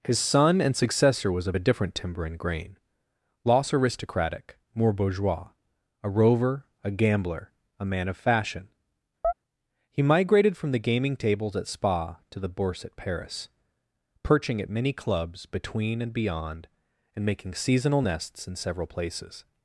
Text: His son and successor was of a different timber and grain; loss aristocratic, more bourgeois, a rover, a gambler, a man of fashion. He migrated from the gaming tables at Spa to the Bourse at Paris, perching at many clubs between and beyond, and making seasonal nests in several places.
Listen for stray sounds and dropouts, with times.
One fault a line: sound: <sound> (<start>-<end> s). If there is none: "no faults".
sound: chirp (9.2-9.3 s)